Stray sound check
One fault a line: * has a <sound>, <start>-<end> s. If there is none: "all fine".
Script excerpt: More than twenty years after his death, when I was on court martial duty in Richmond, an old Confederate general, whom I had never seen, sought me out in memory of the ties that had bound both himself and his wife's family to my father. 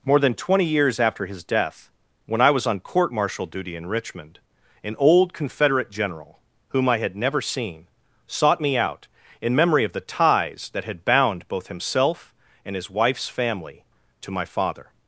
all fine